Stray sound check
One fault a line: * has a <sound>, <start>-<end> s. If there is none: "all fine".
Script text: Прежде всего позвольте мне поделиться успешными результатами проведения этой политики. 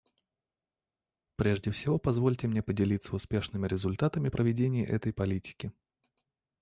all fine